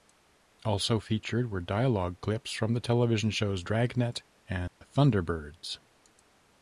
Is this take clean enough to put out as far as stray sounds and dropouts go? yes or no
no